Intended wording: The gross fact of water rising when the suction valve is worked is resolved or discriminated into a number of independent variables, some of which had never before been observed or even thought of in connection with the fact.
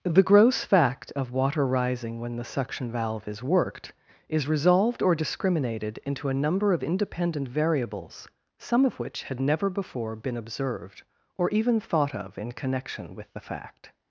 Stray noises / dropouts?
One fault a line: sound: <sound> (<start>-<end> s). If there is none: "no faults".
no faults